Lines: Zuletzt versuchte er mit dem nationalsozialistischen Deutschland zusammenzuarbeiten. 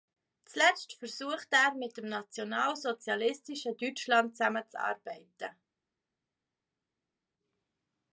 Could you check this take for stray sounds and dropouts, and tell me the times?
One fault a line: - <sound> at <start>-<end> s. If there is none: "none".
none